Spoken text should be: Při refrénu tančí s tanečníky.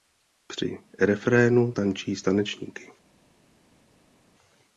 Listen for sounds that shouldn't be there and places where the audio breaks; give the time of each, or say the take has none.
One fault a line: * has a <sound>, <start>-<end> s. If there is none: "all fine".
all fine